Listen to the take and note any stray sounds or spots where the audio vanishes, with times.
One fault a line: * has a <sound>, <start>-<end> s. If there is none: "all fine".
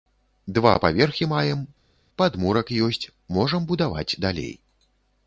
all fine